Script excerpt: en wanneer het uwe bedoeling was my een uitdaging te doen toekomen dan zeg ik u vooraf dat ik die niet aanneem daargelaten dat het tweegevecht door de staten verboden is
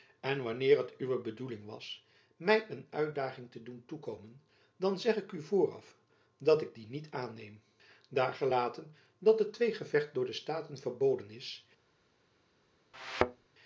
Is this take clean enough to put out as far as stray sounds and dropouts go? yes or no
no